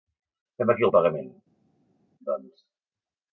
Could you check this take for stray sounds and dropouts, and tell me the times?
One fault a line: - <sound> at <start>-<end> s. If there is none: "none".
none